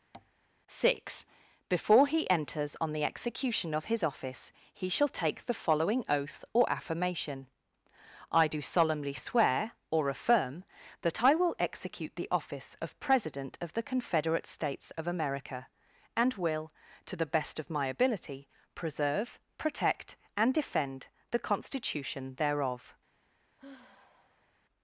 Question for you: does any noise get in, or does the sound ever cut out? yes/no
yes